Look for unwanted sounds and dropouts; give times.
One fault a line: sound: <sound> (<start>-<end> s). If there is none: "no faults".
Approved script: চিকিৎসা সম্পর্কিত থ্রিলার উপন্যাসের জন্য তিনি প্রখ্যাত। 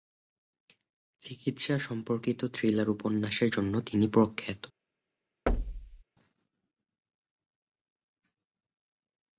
sound: thud (5.5-6.0 s)